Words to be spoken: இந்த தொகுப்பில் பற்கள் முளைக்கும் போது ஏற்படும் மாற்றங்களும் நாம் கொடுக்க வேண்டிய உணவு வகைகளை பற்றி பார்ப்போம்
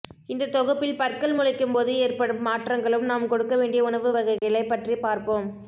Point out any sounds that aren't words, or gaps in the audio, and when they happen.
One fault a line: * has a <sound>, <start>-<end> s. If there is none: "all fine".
* has a dropout, 4.4-4.4 s